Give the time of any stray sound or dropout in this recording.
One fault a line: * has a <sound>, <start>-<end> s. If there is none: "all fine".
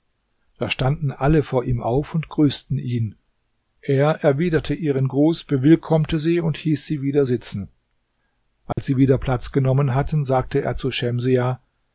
* has a dropout, 8.7-8.8 s